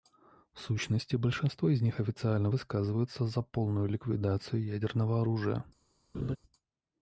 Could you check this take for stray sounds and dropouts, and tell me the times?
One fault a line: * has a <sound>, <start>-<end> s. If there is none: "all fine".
* has a laugh, 6.1-6.4 s